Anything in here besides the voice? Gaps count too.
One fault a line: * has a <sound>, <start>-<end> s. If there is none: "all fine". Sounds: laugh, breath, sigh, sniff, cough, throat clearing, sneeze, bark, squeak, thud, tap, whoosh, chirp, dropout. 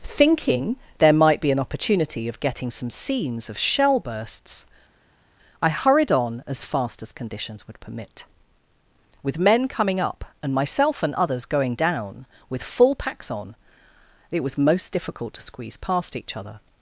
all fine